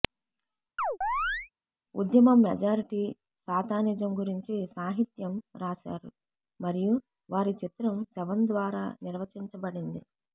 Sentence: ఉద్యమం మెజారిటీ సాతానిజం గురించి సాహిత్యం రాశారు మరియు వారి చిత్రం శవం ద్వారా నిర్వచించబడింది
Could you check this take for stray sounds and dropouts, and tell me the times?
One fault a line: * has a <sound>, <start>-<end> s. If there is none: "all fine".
* has a chirp, 0.8-1.5 s